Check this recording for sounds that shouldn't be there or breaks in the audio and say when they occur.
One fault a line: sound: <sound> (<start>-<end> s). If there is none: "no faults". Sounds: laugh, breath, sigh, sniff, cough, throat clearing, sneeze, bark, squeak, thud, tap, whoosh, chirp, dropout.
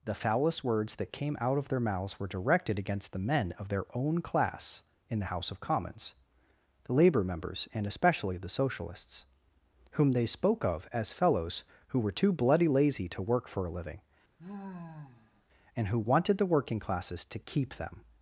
sound: sigh (14.4-15.4 s)